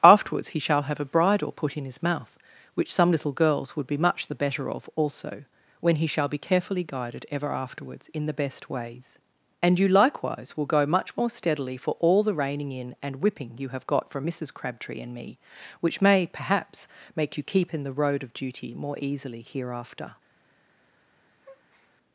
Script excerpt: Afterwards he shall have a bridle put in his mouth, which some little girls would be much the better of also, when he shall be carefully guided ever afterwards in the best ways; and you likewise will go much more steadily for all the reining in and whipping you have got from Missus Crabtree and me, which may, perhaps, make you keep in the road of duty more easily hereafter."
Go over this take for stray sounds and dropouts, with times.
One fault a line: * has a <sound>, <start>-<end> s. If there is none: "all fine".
* has a breath, 21.4-21.9 s